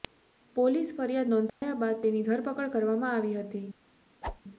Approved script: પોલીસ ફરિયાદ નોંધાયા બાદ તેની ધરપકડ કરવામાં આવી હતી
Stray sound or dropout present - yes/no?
yes